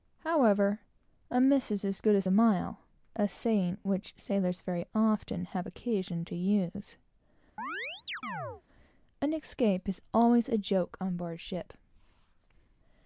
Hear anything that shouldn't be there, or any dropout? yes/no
yes